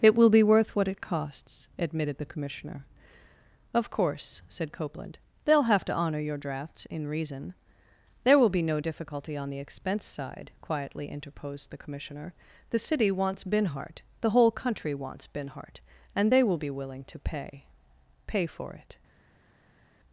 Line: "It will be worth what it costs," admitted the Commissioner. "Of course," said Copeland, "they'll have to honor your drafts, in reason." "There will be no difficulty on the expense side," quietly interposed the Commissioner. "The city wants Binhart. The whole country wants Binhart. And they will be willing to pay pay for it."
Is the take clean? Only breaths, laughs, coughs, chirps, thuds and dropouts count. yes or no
yes